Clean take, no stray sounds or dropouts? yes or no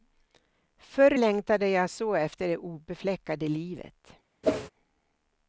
no